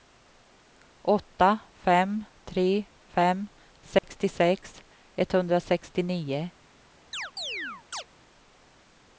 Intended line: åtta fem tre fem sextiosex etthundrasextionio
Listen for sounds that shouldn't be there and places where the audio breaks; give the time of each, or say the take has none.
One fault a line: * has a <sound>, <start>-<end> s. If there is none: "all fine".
* has a dropout, 4.0-4.0 s
* has a chirp, 7.1-8.0 s